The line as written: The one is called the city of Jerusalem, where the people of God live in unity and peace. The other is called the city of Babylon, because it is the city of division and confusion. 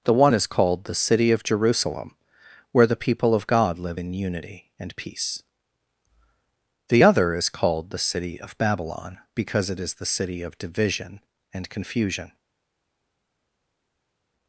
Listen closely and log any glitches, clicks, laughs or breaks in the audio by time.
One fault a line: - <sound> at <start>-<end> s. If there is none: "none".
none